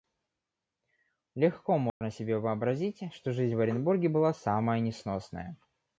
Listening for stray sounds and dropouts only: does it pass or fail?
fail